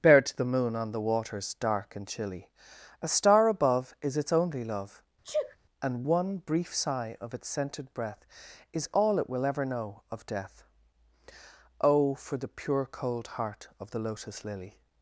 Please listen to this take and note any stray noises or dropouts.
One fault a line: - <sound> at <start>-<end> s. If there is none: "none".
- sneeze at 5.2-5.6 s